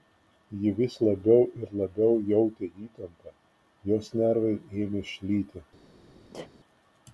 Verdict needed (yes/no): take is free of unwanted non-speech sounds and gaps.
no